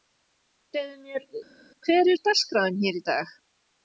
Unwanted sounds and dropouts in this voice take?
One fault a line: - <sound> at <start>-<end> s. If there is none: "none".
none